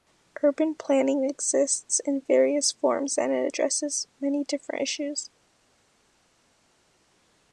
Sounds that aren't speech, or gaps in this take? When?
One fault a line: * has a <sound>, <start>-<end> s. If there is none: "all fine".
all fine